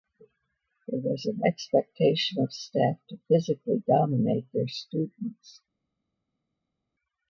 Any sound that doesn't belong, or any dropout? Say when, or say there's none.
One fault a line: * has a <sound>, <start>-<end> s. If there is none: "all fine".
all fine